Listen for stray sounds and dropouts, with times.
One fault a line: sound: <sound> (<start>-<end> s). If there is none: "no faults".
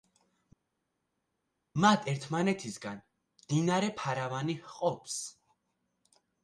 no faults